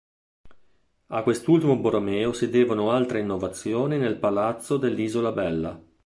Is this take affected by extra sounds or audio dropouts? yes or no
no